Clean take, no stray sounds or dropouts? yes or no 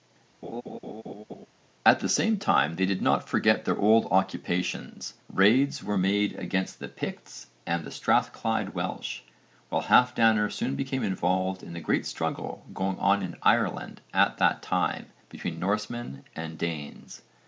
no